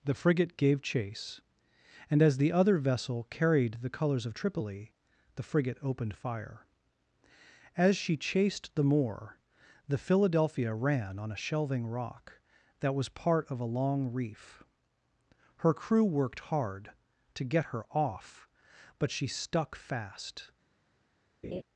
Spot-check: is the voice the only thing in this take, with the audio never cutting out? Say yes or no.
no